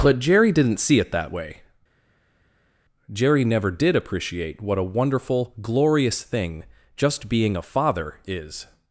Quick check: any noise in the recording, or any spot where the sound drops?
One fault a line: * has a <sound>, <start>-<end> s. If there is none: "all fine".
all fine